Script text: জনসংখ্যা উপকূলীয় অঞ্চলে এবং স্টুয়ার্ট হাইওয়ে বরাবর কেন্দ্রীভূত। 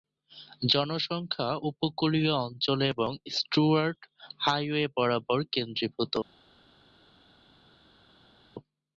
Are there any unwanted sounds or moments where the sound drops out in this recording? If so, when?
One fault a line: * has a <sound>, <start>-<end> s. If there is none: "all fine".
all fine